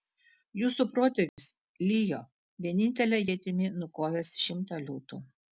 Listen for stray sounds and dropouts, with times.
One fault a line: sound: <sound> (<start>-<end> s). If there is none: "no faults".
sound: dropout (1.3-1.4 s)